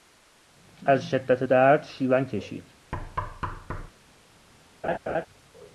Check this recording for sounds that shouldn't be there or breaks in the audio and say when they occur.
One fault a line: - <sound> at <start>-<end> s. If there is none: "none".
- thud at 2.9-3.9 s
- laugh at 4.8-5.3 s